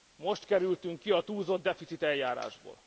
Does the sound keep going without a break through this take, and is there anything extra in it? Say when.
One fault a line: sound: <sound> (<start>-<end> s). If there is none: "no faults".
no faults